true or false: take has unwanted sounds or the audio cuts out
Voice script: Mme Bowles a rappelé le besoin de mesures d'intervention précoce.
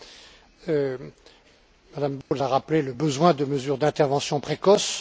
true